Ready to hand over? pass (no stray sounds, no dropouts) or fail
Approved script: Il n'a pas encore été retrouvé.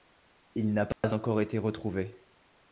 fail